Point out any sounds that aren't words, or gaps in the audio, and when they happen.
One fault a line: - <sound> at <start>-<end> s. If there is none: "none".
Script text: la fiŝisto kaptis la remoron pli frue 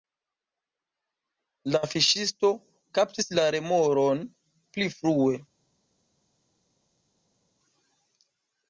none